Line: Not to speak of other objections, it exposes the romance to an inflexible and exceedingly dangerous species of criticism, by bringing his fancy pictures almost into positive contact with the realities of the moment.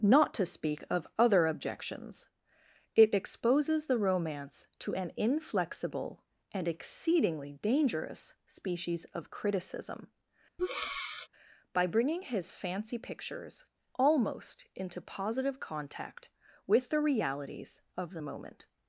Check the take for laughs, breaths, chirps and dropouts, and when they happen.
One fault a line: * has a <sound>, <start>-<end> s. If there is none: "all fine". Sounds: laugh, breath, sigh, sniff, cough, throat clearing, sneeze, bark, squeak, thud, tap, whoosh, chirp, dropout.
* has a breath, 10.6-11.3 s